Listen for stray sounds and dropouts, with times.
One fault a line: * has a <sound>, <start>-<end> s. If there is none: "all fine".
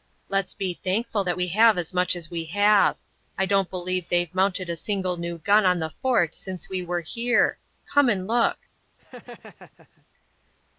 * has a laugh, 9.0-10.1 s